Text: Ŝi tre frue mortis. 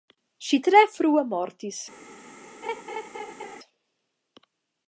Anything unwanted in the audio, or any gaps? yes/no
yes